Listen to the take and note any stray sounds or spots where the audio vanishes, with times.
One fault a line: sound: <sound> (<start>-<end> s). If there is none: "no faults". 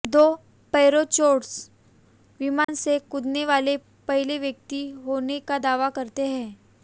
sound: dropout (2.6-2.7 s)